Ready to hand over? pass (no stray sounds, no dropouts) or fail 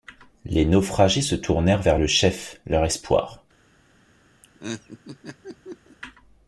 fail